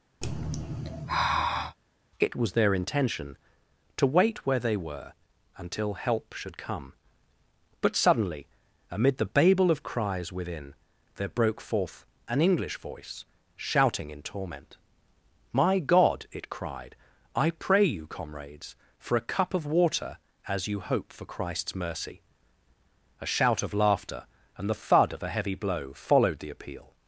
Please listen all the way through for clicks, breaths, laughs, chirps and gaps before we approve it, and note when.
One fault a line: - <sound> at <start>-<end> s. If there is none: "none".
- sigh at 0.2-1.8 s